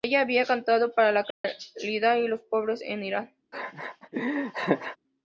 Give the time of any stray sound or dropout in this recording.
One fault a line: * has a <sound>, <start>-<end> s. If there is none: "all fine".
* has a dropout, 1.3-1.4 s
* has a laugh, 3.5-5.0 s